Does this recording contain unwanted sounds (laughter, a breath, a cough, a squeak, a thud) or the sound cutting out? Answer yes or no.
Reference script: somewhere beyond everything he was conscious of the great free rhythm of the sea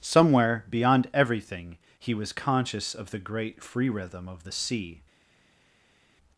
no